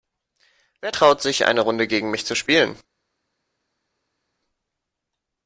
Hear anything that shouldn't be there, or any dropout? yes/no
no